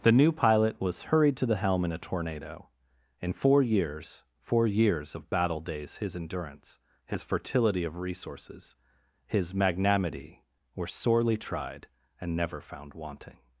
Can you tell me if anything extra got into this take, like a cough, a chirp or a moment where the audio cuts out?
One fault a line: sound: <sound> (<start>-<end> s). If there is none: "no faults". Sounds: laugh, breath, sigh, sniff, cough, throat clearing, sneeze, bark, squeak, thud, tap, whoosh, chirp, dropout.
no faults